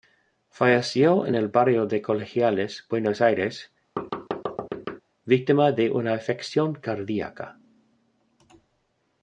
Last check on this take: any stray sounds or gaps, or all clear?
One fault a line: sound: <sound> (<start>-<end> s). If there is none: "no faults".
sound: thud (4.0-5.0 s)